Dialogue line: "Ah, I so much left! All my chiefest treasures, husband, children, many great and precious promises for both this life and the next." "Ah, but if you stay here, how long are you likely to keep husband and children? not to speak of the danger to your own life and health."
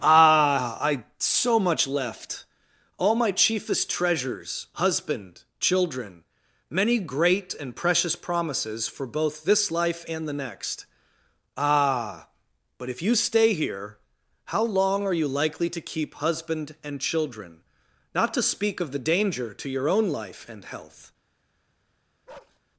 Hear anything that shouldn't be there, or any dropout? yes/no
yes